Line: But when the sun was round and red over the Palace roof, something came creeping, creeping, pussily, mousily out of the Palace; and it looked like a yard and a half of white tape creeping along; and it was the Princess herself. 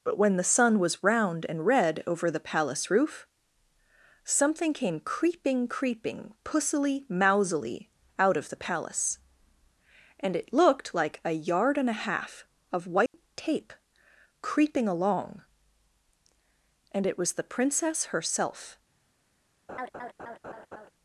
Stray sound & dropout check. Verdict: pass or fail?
fail